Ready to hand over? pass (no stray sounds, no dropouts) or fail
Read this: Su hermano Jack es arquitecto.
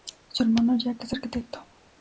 pass